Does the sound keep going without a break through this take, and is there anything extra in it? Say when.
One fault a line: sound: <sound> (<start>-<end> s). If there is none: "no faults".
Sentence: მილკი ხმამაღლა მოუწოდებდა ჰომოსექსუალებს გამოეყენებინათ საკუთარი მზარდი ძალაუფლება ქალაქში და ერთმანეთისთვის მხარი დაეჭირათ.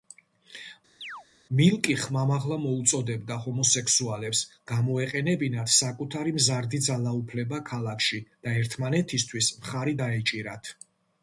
sound: chirp (1.0-1.3 s)